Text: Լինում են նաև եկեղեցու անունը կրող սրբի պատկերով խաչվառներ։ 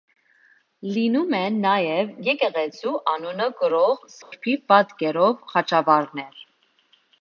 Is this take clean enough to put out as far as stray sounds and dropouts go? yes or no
no